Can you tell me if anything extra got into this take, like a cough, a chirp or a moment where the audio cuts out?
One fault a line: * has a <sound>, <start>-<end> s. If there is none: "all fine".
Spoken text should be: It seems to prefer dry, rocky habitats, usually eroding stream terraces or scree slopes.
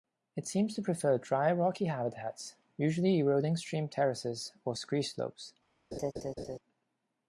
* has a laugh, 5.9-6.6 s